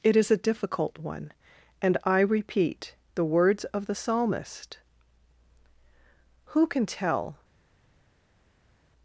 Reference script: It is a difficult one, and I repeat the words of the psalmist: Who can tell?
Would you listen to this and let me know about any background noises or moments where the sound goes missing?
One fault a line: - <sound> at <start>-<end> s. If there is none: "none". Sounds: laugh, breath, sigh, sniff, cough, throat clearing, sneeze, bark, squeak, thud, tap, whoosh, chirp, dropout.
none